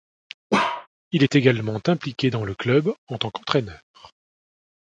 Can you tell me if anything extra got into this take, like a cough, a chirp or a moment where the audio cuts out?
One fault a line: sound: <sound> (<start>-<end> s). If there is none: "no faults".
sound: bark (0.5-0.9 s)